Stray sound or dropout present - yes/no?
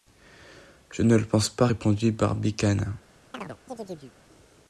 yes